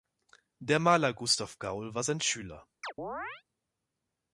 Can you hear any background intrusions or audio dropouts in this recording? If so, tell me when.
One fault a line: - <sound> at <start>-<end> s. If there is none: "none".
- chirp at 2.8-3.4 s